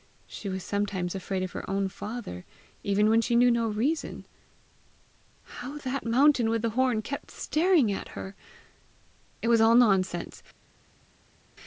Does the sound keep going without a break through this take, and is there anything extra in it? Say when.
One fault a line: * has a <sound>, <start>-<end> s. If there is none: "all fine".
all fine